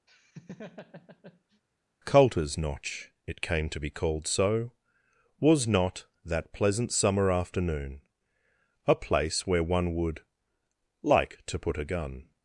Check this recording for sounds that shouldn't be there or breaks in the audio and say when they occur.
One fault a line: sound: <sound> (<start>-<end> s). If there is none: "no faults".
sound: laugh (0.1-1.6 s)